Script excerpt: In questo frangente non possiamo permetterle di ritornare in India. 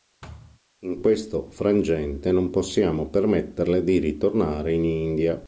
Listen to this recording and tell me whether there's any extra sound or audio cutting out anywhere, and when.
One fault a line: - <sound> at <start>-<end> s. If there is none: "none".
- thud at 0.2-0.6 s